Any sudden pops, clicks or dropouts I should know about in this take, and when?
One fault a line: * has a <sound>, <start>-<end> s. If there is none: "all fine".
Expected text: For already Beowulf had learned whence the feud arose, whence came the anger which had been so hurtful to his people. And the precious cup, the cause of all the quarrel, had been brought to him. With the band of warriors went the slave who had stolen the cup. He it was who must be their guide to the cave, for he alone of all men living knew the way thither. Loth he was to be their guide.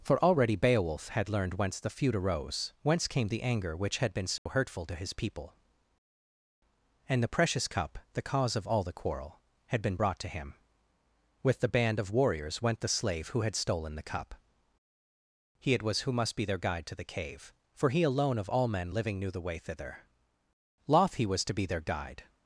* has a dropout, 4.4-4.5 s